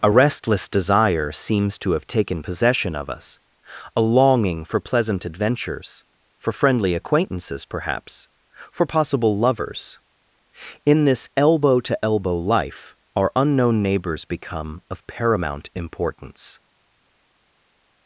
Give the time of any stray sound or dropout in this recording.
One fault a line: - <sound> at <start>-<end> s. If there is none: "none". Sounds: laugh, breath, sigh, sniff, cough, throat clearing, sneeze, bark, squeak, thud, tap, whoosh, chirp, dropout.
none